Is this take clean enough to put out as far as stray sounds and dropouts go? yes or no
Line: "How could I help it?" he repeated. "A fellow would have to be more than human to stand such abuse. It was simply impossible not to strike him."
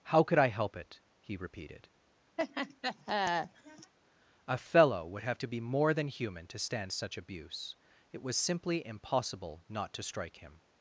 no